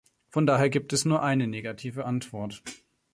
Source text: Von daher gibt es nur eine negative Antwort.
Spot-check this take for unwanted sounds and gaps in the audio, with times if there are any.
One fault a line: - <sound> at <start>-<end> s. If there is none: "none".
none